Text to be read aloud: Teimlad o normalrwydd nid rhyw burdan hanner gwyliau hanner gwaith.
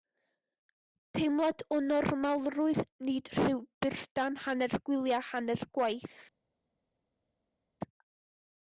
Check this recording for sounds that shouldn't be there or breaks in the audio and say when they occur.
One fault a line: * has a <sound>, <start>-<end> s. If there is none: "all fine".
all fine